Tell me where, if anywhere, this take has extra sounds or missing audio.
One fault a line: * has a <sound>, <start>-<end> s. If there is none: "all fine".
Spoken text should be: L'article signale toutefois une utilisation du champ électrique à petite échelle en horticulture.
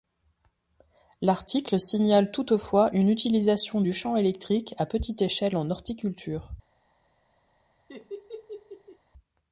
* has a laugh, 7.9-9.0 s